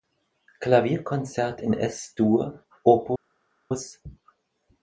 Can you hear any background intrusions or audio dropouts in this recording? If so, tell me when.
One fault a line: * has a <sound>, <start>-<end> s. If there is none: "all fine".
all fine